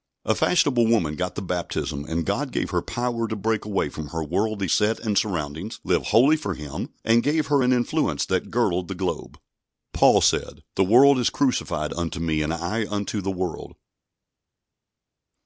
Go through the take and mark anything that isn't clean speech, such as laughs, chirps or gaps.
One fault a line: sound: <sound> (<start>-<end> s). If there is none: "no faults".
no faults